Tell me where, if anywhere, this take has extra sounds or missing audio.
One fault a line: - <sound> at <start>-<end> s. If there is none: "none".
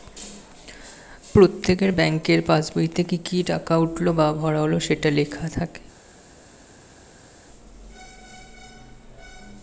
none